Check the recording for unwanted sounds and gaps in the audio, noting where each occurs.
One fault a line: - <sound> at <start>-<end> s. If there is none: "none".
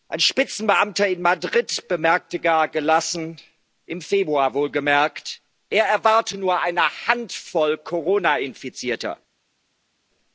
none